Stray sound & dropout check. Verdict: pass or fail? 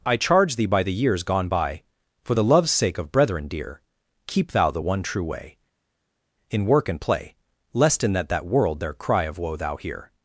pass